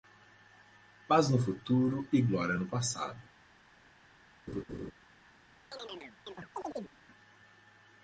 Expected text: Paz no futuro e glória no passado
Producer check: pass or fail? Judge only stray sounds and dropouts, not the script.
fail